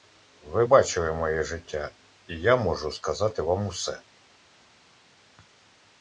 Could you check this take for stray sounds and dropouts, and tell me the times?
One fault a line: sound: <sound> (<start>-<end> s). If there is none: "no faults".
no faults